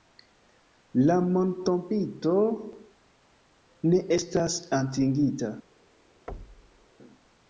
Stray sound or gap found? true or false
true